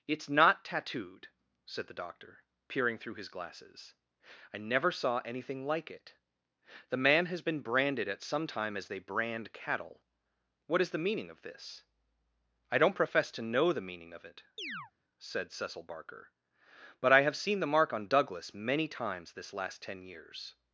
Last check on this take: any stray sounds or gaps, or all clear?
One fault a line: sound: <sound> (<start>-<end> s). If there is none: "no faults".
sound: chirp (14.6-14.9 s)